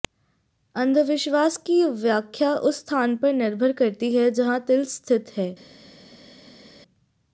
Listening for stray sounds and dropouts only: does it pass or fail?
pass